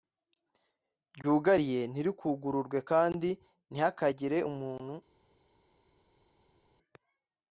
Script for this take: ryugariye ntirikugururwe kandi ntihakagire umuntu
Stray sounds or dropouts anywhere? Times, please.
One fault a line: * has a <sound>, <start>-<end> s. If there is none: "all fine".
all fine